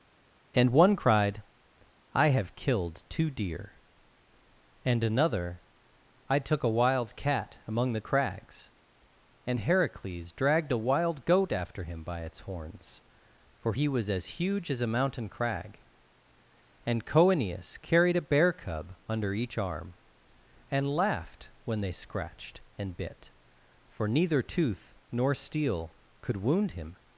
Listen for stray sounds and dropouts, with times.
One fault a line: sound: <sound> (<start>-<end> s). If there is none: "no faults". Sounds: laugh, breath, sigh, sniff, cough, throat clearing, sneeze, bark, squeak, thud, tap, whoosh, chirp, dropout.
no faults